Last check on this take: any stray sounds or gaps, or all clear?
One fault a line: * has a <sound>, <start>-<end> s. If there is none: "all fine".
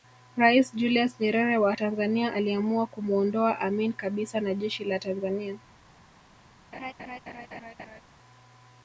* has a laugh, 6.7-8.0 s